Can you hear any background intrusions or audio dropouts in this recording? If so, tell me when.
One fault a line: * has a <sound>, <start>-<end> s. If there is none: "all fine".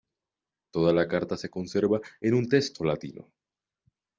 all fine